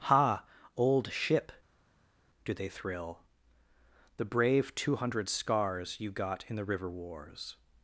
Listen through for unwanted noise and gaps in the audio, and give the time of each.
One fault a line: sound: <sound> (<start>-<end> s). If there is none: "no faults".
no faults